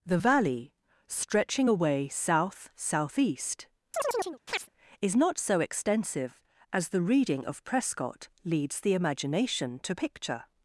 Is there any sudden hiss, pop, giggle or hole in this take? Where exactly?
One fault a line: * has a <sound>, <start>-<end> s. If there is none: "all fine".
* has a chirp, 3.9-4.7 s